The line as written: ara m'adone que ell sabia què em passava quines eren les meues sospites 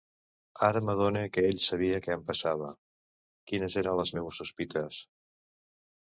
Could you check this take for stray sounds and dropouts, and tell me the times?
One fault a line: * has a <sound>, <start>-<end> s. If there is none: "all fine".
all fine